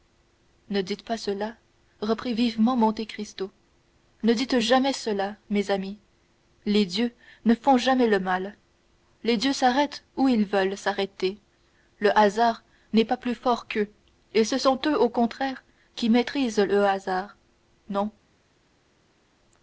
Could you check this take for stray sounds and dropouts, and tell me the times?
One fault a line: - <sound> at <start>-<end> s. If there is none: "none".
none